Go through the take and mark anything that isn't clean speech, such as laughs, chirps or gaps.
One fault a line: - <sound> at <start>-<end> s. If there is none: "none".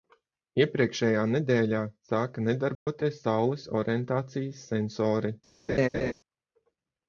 - dropout at 2.7-2.9 s
- laugh at 5.7-6.1 s